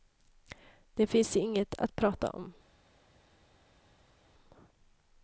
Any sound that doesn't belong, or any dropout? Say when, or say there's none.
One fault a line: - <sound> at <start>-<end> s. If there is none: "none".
none